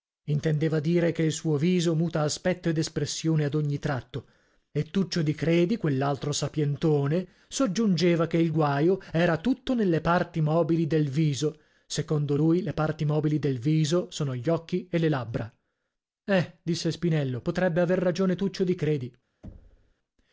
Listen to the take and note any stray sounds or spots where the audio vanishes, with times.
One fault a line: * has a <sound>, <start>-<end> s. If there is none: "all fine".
* has a thud, 19.4-19.9 s